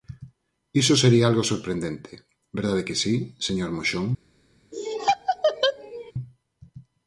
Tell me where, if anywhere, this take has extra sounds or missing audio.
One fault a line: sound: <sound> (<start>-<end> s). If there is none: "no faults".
sound: laugh (4.7-6.1 s)